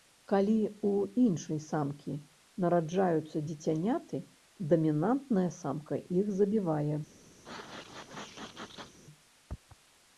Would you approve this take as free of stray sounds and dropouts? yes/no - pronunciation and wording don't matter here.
no